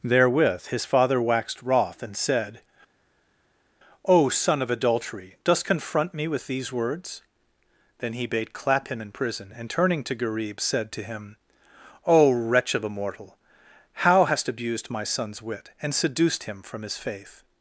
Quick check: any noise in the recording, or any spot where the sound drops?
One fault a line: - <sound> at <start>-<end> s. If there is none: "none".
none